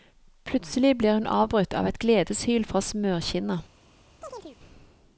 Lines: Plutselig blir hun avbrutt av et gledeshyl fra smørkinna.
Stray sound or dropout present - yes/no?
yes